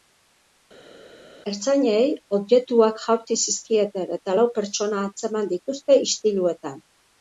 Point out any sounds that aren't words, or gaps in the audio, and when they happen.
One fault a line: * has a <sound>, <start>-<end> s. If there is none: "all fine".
all fine